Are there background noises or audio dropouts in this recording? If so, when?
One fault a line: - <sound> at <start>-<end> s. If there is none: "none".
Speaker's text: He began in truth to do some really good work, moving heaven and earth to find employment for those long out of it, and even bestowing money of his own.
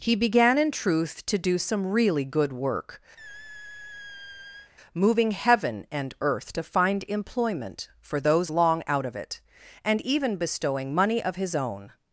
- squeak at 3.2-4.7 s